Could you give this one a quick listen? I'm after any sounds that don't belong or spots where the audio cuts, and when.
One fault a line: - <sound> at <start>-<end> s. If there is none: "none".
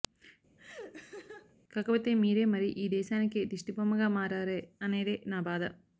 - laugh at 0.6-1.6 s